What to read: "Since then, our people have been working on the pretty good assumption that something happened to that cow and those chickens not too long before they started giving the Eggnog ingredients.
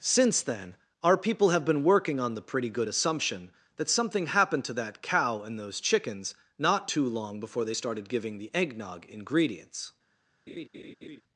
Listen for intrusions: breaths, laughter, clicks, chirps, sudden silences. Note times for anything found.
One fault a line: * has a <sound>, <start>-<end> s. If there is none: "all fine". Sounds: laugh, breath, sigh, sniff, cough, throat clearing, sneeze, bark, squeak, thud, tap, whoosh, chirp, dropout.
* has a laugh, 10.5-11.2 s